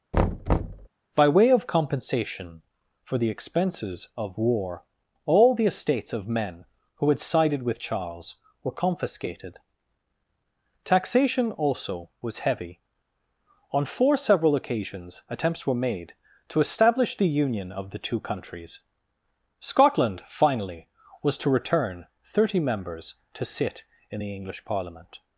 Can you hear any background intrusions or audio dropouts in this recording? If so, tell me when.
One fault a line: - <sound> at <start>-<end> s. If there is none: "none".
- thud at 0.1-0.9 s